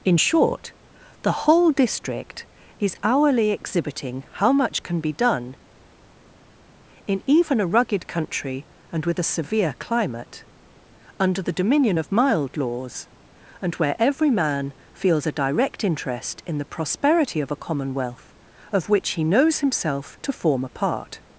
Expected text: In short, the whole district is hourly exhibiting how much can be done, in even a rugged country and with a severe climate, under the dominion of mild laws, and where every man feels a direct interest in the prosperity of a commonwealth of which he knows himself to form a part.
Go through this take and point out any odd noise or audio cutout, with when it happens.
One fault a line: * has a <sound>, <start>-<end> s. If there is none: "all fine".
all fine